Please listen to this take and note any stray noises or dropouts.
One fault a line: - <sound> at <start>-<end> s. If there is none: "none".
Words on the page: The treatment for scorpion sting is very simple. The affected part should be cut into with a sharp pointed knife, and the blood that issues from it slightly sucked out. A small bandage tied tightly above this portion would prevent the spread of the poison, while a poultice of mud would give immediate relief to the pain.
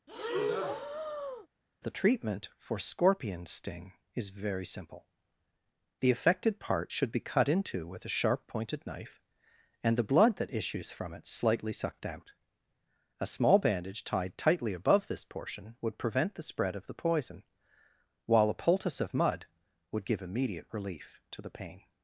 - breath at 0.1-1.5 s